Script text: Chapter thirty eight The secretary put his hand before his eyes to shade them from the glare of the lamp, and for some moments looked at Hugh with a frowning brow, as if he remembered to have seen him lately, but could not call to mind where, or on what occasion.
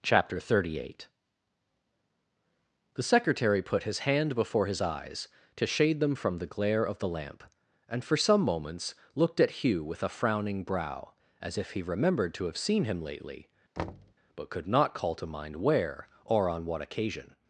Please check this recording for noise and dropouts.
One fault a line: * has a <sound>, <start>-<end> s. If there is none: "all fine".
* has a thud, 13.8-14.1 s